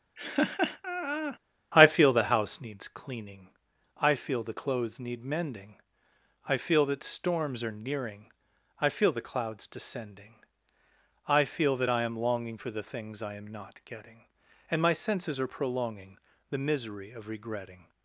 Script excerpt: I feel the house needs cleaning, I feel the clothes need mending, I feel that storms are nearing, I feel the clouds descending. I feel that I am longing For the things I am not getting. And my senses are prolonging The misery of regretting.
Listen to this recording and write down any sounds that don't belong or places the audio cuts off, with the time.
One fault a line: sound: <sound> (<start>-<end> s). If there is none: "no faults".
sound: laugh (0.2-1.4 s)